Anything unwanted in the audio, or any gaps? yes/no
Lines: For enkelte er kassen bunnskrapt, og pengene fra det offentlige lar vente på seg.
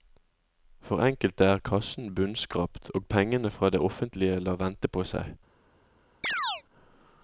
yes